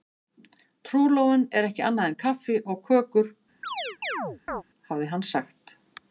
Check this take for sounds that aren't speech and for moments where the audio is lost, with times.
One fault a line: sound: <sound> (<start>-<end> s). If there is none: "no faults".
sound: chirp (3.6-4.6 s)